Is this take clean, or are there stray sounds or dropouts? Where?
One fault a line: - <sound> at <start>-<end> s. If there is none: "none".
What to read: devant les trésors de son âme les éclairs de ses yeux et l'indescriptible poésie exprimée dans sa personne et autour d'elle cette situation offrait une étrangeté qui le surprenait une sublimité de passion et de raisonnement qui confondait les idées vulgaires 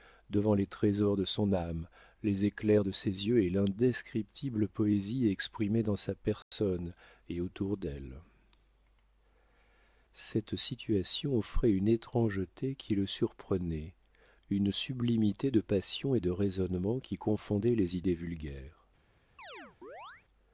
- dropout at 6.4-6.5 s
- chirp at 19.4-20.2 s